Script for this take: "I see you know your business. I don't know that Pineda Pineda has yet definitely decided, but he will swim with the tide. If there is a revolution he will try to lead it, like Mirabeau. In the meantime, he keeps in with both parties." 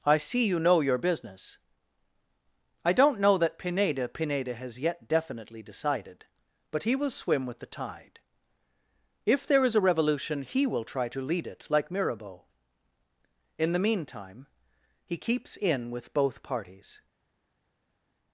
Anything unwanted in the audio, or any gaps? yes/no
no